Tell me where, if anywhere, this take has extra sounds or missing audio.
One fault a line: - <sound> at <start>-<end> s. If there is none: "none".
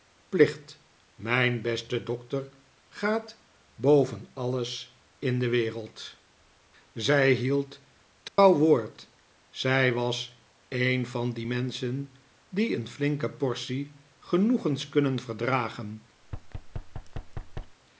- dropout at 8.3-8.4 s
- thud at 16.2-17.8 s